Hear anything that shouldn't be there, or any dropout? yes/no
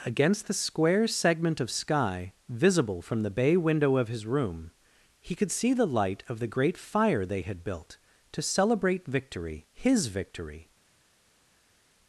no